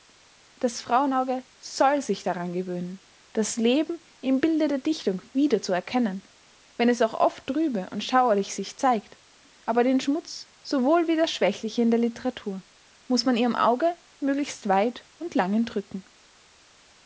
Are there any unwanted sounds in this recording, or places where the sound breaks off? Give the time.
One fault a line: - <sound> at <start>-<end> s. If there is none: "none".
none